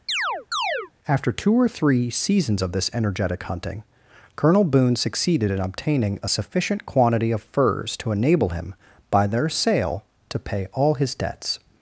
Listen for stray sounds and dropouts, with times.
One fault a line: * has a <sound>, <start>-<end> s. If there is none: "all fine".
* has a chirp, 0.1-0.9 s